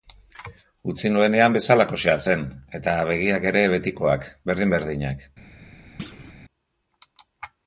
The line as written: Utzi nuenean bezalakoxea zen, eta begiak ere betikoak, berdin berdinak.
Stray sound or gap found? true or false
true